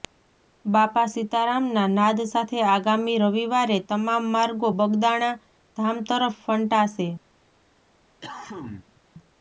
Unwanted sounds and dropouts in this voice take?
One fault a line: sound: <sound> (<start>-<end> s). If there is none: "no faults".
sound: cough (8.2-9.0 s)